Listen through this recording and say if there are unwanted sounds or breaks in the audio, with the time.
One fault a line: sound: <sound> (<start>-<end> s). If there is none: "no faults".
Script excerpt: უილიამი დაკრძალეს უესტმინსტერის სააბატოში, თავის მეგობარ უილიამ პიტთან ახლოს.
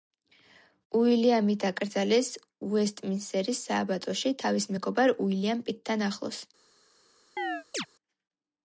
sound: chirp (7.4-7.9 s)